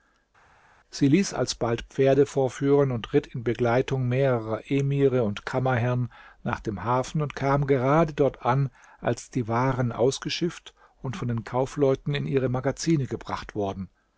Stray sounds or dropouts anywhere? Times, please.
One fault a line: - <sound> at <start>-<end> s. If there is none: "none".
none